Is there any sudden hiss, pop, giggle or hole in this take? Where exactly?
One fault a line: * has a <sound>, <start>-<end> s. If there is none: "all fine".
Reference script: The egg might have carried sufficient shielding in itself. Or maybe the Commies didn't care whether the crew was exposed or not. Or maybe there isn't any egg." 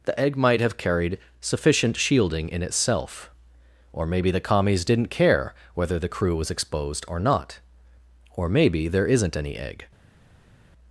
all fine